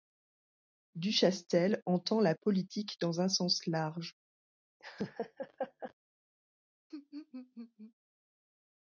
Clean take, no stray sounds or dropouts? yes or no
no